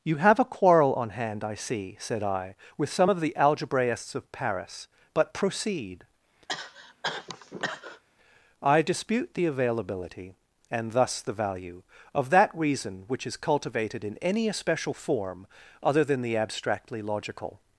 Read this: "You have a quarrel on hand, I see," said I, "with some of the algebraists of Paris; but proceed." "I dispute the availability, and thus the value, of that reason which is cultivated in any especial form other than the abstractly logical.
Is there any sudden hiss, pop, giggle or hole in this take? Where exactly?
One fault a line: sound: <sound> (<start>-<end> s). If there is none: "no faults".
sound: cough (6.5-8.0 s)